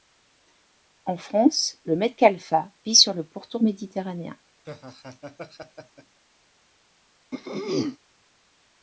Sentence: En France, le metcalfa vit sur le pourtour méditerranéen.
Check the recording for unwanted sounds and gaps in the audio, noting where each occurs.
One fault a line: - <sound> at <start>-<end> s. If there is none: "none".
- laugh at 4.6-6.2 s
- throat clearing at 7.3-8.0 s